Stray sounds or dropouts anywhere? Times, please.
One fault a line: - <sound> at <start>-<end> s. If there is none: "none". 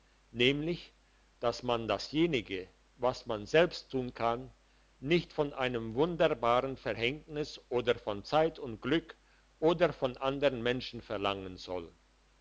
none